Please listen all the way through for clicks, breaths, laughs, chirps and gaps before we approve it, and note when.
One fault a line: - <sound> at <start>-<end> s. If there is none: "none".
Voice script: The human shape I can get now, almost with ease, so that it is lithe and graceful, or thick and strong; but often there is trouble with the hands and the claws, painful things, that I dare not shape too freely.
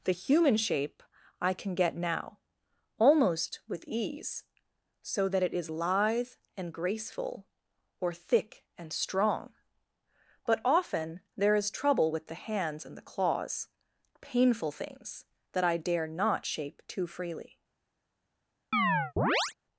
- chirp at 18.7-19.5 s